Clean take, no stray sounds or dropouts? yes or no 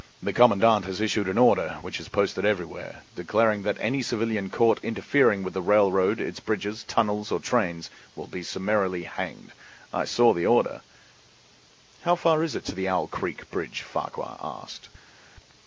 yes